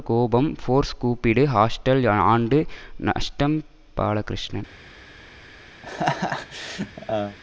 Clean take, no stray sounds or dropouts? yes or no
no